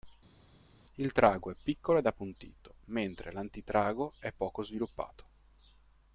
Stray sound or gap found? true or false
false